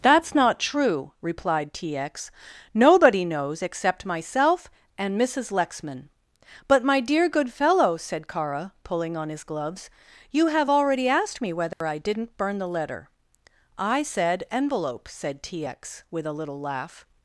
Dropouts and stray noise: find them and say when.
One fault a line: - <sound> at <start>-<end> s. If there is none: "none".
- dropout at 11.7-11.8 s